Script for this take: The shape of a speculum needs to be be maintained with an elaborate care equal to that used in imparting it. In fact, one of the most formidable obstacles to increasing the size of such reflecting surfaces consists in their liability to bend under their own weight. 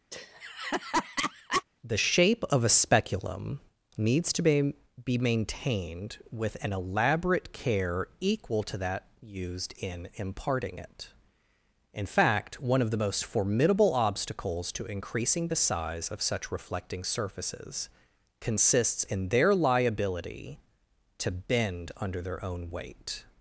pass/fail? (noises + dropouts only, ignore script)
fail